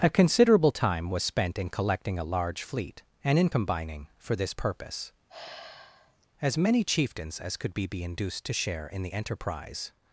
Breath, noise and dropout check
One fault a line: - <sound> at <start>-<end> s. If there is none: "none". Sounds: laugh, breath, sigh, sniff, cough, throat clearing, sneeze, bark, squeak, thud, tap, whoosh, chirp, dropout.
- sigh at 5.3-6.3 s